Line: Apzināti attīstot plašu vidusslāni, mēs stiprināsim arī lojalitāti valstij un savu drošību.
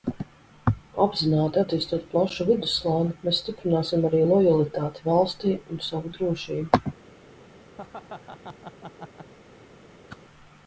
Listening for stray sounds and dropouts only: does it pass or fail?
fail